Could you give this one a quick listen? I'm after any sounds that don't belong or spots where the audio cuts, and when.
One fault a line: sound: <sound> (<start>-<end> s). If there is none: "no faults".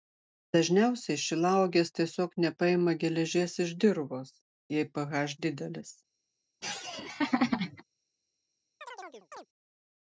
sound: laugh (6.6-7.8 s)
sound: chirp (8.8-9.5 s)